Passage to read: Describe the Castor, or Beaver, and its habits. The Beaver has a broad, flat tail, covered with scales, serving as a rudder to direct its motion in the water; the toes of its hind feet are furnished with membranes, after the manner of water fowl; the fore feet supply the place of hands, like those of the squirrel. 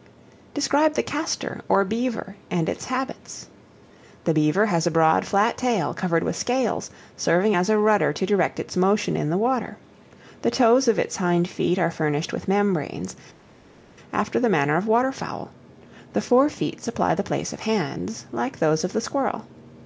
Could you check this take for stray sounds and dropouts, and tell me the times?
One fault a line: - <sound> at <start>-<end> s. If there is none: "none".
none